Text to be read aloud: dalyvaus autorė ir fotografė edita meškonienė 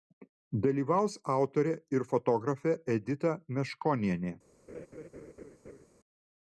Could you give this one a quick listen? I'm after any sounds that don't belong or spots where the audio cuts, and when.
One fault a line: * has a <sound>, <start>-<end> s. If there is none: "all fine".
* has a laugh, 4.7-5.9 s